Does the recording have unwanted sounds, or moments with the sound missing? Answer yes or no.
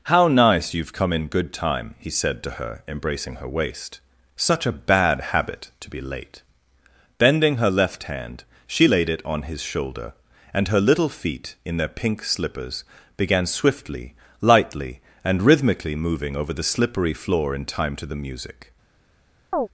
yes